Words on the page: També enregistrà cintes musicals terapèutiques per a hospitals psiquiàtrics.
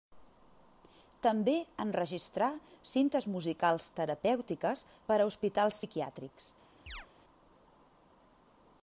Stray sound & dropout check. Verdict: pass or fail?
fail